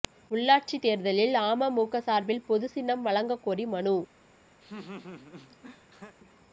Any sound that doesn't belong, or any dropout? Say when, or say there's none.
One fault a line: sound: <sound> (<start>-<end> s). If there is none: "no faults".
sound: laugh (4.6-6.2 s)